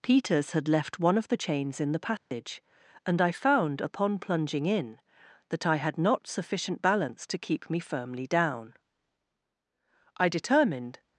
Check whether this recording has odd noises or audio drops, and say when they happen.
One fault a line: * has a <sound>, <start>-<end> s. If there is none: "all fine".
* has a dropout, 2.2-2.3 s